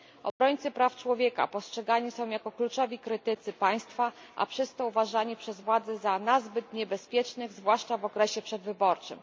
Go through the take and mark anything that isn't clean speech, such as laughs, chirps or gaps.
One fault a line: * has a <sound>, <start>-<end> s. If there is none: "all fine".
* has a dropout, 0.3-0.4 s